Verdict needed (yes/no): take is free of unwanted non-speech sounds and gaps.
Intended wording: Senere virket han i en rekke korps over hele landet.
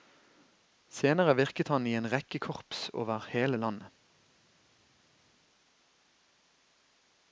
yes